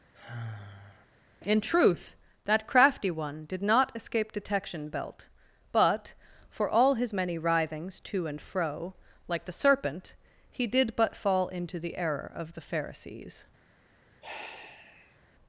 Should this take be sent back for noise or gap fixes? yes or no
yes